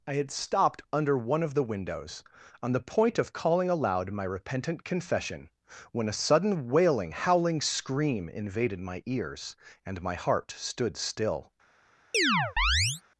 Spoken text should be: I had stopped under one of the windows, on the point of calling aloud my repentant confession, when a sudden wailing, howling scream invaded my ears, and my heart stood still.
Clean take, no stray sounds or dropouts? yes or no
no